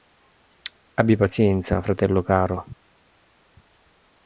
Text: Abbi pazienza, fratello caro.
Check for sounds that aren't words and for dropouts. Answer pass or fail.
pass